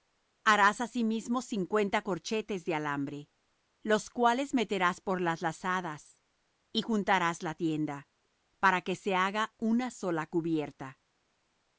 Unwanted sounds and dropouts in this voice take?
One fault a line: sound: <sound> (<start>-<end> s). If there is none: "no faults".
no faults